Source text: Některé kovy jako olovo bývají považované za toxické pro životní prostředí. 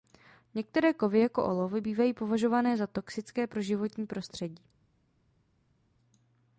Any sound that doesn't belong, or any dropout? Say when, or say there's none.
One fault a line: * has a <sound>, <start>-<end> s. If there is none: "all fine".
all fine